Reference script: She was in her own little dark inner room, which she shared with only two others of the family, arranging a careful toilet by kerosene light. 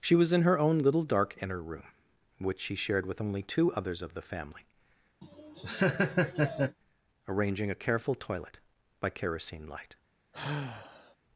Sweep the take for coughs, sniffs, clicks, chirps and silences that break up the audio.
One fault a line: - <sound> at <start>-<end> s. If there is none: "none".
- laugh at 5.2-6.8 s
- sigh at 10.3-11.2 s